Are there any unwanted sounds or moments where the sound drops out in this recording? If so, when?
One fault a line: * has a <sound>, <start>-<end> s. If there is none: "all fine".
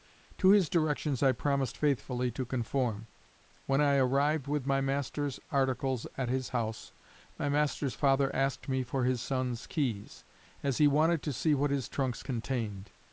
all fine